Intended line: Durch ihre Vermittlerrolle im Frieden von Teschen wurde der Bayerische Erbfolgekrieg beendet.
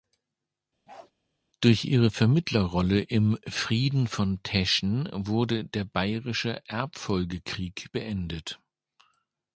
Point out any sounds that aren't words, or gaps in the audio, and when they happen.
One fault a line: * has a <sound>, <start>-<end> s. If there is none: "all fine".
* has a bark, 0.9-1.1 s